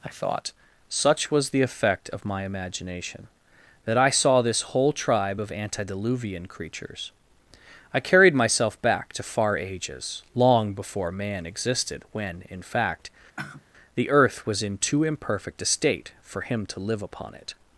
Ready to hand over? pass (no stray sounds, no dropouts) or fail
fail